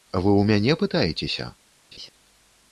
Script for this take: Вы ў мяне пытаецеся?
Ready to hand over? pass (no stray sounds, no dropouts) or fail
fail